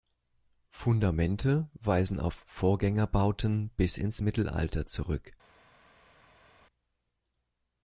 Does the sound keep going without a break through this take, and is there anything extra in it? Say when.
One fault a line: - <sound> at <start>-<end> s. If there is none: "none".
none